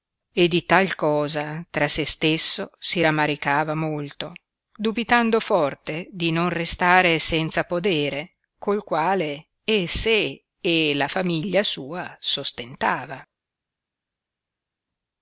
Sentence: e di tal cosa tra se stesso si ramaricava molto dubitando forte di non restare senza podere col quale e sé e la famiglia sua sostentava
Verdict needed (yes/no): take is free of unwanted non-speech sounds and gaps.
yes